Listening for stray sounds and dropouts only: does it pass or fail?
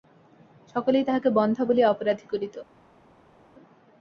pass